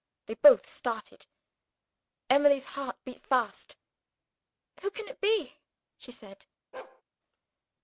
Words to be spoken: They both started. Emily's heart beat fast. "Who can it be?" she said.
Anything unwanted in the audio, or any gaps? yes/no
yes